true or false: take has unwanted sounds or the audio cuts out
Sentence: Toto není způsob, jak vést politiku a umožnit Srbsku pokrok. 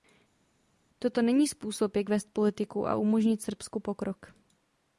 false